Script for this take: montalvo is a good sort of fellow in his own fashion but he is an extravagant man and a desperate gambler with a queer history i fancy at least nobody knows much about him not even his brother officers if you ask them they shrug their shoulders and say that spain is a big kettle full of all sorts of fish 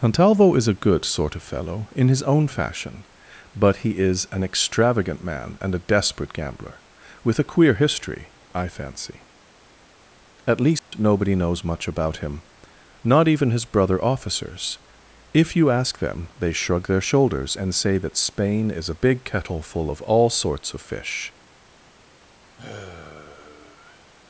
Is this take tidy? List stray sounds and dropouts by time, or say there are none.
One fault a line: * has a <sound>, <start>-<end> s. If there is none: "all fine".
* has a dropout, 10.8-10.9 s
* has a sigh, 22.6-24.1 s